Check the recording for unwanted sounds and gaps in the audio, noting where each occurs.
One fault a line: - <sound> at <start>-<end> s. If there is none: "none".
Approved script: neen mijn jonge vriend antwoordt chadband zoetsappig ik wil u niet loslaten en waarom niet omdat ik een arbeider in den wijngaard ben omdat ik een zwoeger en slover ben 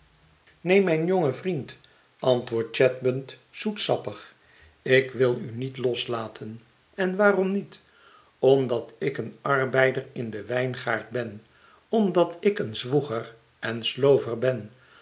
none